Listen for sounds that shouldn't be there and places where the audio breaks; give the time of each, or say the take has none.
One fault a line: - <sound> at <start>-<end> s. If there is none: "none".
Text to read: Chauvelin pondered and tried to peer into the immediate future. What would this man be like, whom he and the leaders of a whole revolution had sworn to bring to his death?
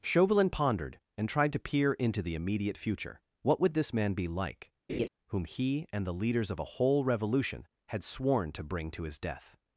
- laugh at 4.9-5.1 s